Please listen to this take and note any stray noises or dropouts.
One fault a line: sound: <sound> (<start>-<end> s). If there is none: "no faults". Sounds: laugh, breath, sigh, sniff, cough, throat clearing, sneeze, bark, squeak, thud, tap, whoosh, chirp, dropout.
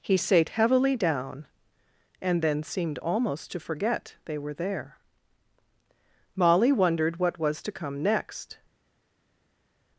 no faults